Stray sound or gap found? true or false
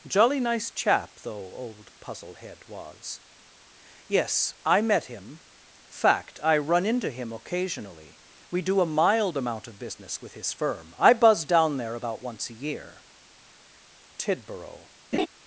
true